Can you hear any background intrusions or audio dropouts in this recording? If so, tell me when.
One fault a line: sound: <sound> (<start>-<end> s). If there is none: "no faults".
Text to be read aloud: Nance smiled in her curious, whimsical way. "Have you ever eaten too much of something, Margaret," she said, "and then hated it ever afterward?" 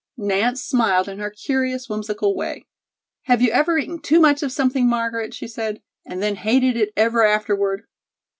no faults